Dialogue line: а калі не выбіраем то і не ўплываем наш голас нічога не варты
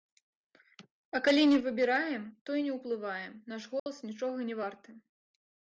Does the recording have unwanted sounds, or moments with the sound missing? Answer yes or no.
yes